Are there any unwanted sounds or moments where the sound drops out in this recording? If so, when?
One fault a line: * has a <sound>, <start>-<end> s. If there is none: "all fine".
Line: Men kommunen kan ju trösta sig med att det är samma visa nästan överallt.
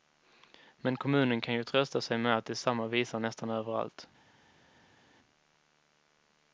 all fine